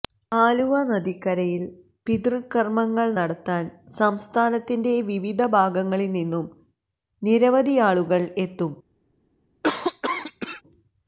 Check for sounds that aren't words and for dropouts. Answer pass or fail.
fail